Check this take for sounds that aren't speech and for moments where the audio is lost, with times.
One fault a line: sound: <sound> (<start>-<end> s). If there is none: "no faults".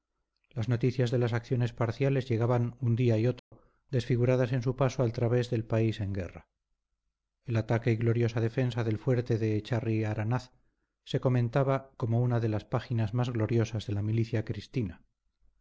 sound: dropout (3.4-3.5 s)